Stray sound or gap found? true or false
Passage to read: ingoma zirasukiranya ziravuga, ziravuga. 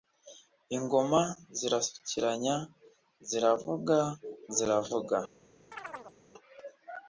true